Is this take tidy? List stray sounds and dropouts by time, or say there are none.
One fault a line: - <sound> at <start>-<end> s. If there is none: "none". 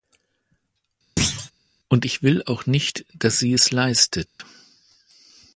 - thud at 1.2-1.5 s
- dropout at 4.3-4.4 s